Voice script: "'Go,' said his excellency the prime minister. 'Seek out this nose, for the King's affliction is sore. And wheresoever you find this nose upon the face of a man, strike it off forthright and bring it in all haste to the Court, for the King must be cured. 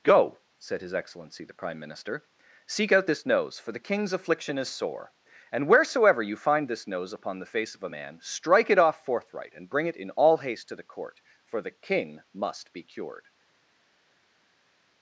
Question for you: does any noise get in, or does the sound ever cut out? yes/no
no